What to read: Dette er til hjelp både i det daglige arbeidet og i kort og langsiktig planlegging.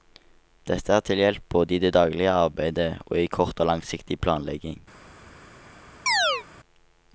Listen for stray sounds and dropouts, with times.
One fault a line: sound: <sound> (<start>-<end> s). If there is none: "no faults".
sound: chirp (6.1-6.5 s)